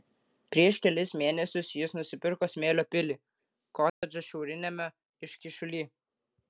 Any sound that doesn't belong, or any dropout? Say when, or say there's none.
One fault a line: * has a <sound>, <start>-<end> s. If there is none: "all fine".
* has a dropout, 3.9-4.0 s